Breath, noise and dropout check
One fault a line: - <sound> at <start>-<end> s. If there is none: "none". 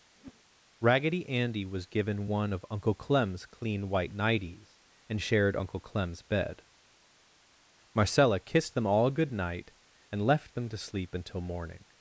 - whoosh at 0.2-0.4 s